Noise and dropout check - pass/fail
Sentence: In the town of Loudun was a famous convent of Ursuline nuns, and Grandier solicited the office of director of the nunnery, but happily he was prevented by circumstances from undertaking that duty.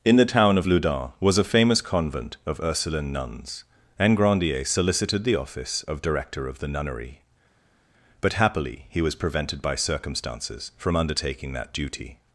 pass